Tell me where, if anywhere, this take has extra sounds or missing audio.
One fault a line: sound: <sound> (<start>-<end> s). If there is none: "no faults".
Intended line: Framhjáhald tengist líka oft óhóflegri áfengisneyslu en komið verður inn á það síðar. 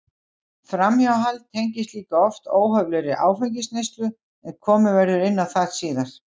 no faults